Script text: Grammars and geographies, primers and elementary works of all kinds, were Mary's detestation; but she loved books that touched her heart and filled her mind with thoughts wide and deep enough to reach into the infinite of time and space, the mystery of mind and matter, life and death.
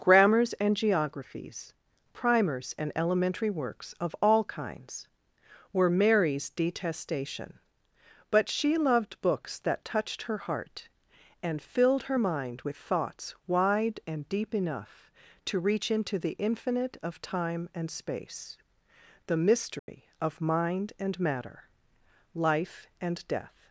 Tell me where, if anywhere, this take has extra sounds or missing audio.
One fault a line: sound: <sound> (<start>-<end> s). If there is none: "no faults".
sound: dropout (19.8-19.9 s)